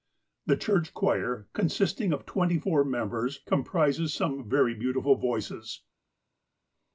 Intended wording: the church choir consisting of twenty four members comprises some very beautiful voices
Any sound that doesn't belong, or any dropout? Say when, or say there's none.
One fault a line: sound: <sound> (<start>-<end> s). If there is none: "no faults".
no faults